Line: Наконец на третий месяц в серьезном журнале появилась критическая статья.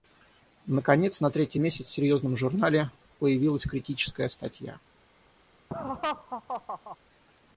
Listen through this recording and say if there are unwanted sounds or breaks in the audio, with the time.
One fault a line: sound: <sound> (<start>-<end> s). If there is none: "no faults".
sound: laugh (5.7-7.0 s)